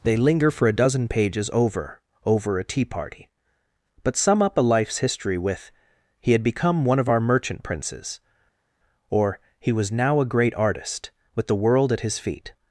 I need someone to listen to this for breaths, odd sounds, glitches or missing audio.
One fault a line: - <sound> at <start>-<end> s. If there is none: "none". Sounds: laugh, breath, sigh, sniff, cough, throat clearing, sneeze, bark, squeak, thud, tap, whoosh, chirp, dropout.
none